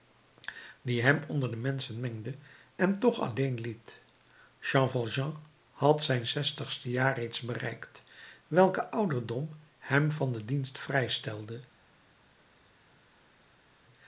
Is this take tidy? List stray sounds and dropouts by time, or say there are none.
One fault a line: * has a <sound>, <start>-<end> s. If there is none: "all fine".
all fine